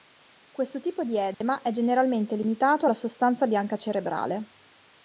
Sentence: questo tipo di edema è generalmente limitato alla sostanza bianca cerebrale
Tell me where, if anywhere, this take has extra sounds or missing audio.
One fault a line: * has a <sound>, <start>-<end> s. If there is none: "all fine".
* has a dropout, 1.3-1.4 s